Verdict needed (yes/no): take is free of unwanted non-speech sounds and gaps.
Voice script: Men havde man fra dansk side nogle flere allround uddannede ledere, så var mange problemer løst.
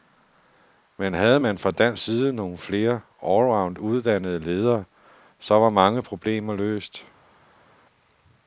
yes